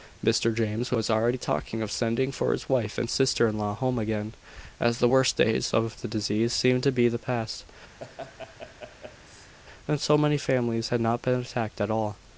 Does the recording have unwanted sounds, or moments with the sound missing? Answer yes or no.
yes